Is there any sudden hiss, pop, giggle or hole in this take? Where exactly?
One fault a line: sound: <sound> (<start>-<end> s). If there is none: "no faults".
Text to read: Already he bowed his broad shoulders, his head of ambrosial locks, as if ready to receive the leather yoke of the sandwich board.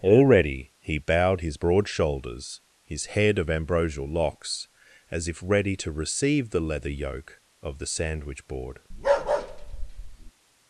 sound: bark (8.9-10.3 s)